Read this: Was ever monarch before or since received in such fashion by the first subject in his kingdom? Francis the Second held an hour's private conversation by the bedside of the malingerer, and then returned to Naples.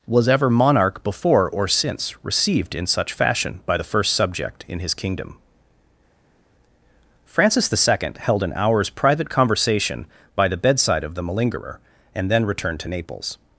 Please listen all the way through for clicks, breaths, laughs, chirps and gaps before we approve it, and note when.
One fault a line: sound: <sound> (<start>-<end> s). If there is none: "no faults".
no faults